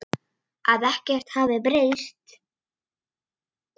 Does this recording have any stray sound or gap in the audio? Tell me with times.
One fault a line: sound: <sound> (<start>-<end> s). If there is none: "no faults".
no faults